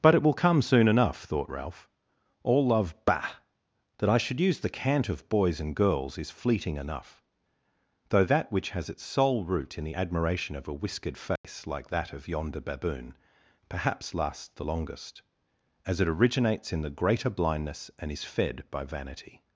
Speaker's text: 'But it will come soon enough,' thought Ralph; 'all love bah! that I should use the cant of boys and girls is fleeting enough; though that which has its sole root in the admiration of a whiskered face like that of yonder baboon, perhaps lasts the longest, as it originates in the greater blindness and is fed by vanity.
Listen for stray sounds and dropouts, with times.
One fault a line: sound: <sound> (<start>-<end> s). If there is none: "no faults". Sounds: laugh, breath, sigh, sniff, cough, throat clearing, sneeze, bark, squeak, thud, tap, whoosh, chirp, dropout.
sound: dropout (11.4-11.4 s)